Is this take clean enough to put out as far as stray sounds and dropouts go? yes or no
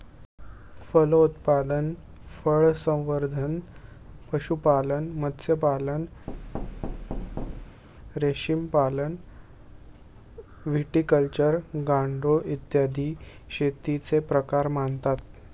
no